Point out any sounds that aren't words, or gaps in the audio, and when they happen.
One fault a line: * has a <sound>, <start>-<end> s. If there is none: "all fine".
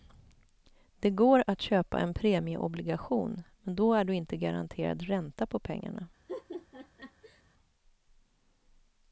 * has a laugh, 6.3-7.4 s